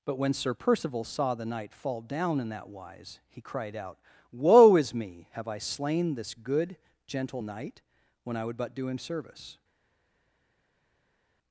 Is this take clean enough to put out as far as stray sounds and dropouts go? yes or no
yes